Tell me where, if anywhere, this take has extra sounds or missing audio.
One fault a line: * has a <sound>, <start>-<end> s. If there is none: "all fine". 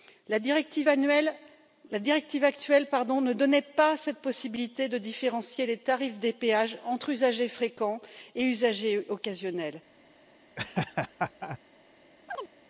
* has a laugh, 10.6-11.6 s
* has a chirp, 12.3-12.5 s